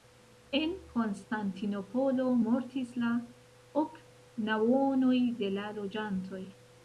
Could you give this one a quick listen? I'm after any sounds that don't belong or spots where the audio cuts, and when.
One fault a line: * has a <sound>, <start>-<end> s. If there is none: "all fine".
all fine